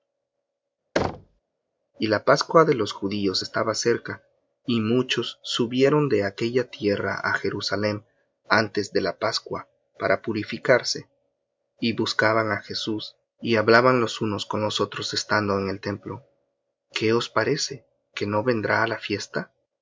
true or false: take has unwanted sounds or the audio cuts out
true